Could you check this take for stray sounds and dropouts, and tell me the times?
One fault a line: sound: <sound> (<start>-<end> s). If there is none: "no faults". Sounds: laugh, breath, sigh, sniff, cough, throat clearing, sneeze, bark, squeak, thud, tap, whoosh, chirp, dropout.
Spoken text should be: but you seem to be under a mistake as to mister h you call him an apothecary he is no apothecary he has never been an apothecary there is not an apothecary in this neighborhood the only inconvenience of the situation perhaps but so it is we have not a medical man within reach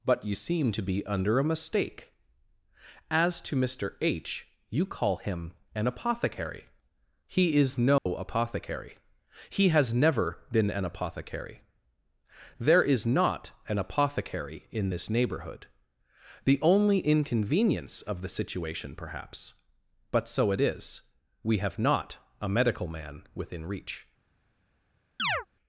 sound: dropout (8.0-8.1 s)
sound: chirp (25.2-25.5 s)